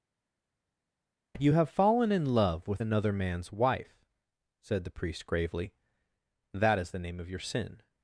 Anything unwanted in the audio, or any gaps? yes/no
no